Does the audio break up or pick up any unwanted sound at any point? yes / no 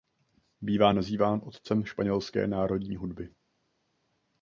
no